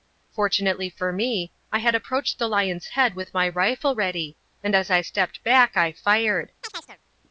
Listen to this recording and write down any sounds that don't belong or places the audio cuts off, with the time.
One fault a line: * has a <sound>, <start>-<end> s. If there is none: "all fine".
* has a chirp, 6.6-7.0 s